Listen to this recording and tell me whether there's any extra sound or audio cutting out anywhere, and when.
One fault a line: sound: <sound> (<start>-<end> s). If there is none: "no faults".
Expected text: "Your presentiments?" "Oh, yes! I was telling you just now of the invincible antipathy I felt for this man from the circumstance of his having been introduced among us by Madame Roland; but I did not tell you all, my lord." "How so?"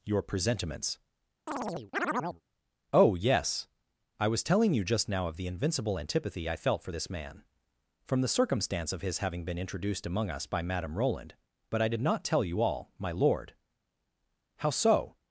sound: chirp (1.5-2.4 s)